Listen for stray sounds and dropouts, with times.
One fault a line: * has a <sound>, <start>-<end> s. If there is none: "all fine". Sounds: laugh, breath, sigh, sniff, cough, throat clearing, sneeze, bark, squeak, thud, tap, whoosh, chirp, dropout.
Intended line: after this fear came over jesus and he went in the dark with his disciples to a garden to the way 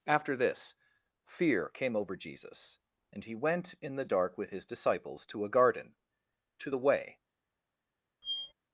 * has a squeak, 8.2-8.5 s